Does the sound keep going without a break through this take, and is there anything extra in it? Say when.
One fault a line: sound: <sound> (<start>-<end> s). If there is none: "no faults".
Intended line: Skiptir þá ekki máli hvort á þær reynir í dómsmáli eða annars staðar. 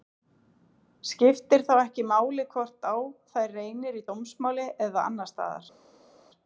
no faults